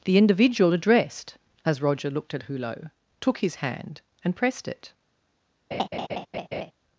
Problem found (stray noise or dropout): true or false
true